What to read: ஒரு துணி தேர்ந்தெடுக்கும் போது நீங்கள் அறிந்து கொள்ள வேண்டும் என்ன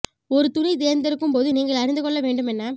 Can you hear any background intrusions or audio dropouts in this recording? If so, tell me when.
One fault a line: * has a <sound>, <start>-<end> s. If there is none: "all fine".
all fine